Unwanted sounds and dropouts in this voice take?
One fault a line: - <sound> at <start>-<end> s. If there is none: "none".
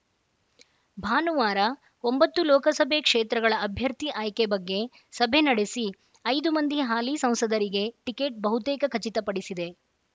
none